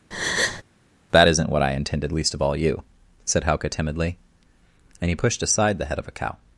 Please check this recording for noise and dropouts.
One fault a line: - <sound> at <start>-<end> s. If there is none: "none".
- breath at 0.1-0.6 s